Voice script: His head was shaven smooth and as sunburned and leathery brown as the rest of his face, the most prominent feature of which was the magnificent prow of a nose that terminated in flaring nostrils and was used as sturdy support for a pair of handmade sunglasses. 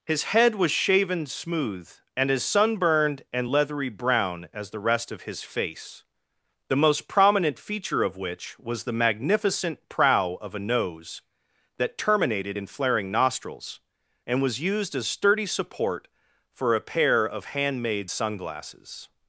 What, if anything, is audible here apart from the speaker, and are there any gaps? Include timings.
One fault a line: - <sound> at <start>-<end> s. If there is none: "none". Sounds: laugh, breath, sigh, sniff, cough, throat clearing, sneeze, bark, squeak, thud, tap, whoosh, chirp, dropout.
none